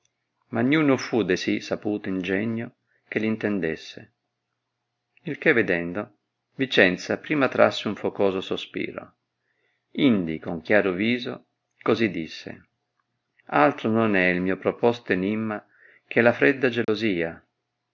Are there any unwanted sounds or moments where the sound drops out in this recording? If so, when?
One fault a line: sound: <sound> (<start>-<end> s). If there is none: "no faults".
sound: dropout (16.8-16.9 s)